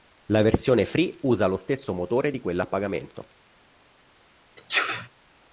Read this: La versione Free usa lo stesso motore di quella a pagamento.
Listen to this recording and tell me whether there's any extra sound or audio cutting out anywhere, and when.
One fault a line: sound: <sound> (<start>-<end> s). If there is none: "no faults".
sound: sneeze (4.6-5.1 s)